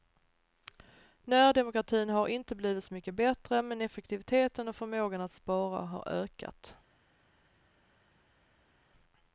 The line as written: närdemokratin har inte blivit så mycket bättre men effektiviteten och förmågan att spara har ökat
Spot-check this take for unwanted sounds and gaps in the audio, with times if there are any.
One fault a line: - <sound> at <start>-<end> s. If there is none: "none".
none